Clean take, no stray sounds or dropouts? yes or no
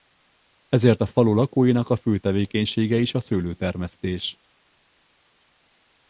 yes